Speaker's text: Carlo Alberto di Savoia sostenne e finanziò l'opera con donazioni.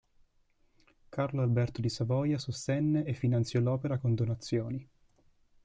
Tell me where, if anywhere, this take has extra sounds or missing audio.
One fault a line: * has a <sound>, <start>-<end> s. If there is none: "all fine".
all fine